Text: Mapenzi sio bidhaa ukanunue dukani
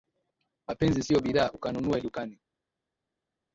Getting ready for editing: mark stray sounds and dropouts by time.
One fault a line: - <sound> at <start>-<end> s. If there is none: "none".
none